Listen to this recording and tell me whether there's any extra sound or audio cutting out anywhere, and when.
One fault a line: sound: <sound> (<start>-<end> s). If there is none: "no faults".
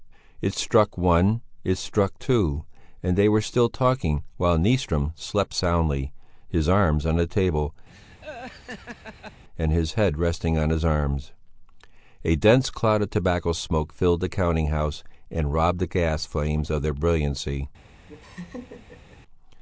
sound: laugh (7.9-9.4 s)
sound: laugh (18.1-19.2 s)